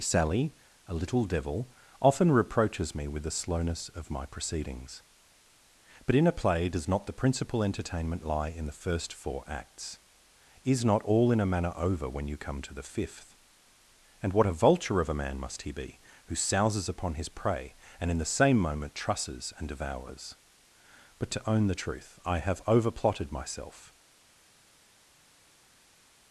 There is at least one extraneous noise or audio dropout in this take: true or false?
false